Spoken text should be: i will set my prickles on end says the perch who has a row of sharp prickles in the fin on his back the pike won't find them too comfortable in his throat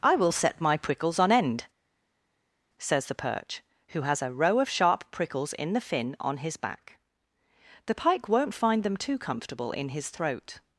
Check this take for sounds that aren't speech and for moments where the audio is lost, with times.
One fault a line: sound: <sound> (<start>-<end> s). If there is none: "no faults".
no faults